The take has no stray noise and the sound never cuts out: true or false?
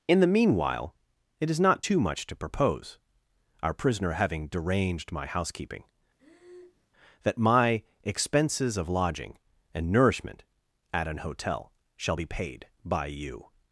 false